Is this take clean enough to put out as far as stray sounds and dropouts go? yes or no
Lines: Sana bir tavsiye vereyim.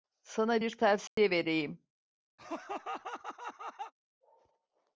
no